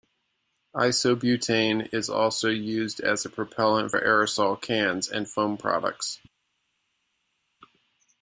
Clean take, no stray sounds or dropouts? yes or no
yes